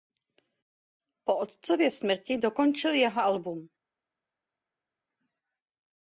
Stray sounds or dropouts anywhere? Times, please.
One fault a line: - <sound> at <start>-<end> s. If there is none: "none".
none